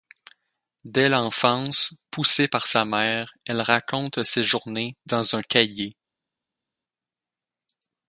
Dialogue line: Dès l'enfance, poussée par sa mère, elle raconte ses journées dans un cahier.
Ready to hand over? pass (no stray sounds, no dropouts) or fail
pass